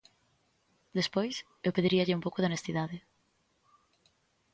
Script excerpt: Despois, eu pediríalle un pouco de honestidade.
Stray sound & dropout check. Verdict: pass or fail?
pass